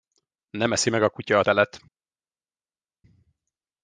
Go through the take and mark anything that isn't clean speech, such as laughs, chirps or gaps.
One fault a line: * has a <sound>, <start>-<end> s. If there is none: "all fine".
all fine